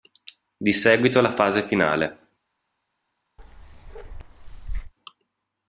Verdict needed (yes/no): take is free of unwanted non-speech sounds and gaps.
no